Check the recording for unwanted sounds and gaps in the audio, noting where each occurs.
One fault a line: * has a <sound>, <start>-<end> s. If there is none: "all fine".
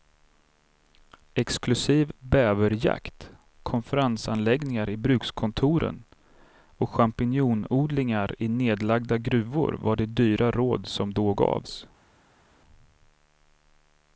all fine